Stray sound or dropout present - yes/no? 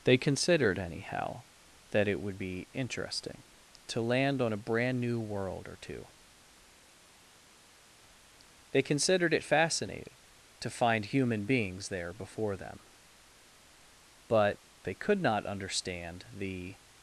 no